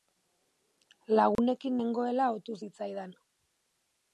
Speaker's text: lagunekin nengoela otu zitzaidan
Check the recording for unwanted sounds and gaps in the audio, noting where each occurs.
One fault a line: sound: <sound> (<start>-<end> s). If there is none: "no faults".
sound: dropout (1.4-1.4 s)